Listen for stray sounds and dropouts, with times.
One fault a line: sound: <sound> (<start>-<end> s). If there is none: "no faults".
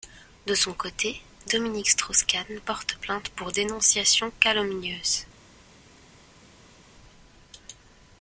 no faults